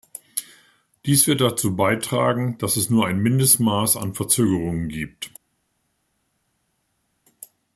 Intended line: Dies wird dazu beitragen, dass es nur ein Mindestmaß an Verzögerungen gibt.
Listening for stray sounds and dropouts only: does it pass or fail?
pass